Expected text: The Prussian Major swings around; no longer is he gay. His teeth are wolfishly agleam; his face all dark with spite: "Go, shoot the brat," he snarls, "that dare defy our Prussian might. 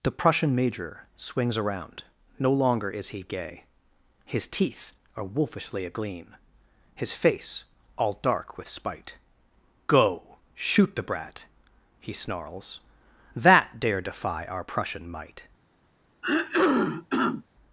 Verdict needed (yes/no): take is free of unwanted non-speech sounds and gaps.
no